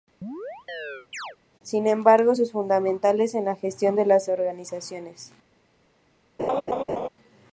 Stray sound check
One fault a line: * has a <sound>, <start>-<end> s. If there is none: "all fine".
* has a chirp, 0.2-1.4 s
* has a laugh, 6.4-7.1 s